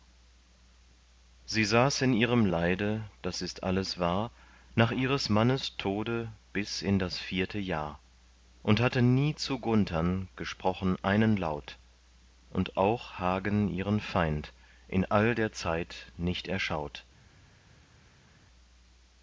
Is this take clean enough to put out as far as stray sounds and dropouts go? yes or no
yes